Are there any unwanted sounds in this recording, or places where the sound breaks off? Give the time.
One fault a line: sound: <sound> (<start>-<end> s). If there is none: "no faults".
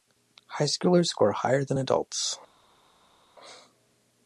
no faults